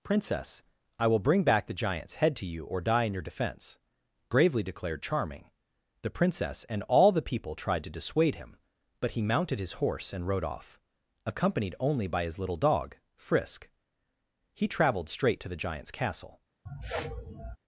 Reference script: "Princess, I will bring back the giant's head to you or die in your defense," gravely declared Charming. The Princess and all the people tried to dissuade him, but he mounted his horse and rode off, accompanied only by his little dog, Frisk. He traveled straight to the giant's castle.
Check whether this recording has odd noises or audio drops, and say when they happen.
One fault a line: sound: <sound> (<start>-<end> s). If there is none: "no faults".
sound: sniff (16.7-17.6 s)